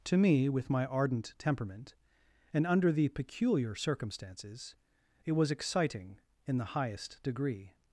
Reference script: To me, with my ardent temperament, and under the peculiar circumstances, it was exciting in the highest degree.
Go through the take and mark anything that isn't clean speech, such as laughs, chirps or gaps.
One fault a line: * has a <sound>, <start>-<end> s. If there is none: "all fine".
all fine